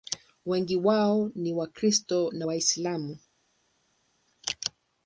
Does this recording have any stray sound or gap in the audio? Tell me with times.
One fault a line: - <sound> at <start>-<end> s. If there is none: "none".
none